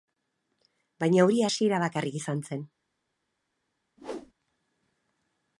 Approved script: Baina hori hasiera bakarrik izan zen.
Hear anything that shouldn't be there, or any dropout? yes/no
yes